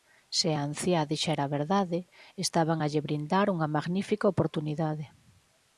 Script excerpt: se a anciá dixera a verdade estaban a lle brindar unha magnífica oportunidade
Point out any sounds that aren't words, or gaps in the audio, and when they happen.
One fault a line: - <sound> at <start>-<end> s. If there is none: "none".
none